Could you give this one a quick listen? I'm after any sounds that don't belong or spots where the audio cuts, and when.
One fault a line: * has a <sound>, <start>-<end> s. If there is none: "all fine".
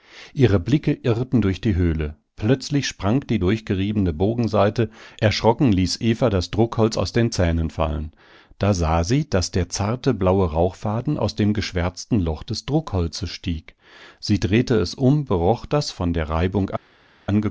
all fine